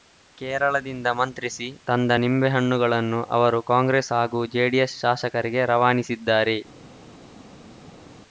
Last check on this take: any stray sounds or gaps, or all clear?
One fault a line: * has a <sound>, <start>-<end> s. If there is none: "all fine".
all fine